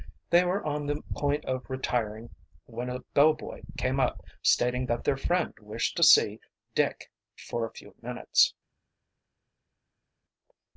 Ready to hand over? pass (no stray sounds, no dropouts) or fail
pass